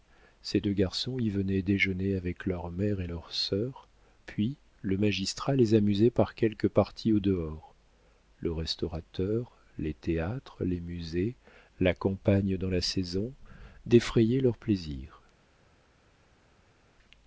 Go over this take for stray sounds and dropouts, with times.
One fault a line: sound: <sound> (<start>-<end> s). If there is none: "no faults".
no faults